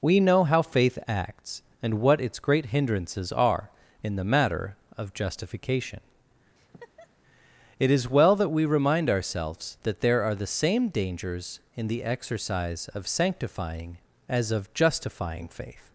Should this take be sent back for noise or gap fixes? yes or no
yes